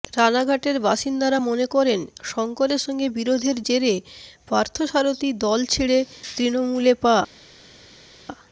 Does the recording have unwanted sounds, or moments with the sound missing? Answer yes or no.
no